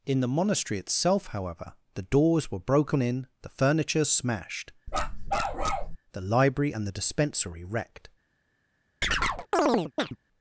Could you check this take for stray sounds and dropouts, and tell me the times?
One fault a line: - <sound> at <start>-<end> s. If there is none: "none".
- bark at 4.9-6.0 s
- chirp at 9.0-10.2 s